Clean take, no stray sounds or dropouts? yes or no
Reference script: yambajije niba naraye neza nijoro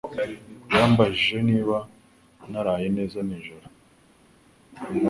yes